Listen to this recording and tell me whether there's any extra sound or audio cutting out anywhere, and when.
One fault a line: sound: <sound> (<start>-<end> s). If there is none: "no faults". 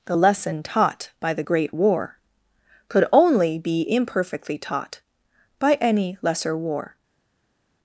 no faults